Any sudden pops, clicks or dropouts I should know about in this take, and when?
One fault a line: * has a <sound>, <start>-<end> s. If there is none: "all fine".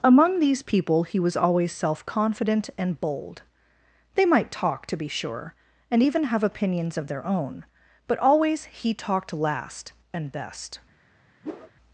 * has a whoosh, 11.4-11.7 s